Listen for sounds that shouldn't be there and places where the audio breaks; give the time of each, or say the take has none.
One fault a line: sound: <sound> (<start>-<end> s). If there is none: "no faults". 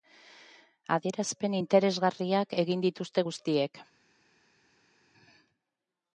no faults